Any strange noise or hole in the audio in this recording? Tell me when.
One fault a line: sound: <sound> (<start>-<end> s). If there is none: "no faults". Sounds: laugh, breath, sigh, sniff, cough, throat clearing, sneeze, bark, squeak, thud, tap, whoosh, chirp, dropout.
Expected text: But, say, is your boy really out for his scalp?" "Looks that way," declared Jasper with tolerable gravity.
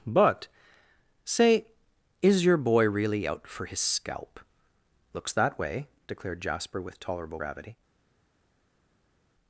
no faults